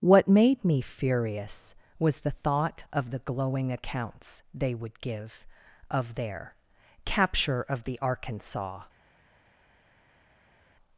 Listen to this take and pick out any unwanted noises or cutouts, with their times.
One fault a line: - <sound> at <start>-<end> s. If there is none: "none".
none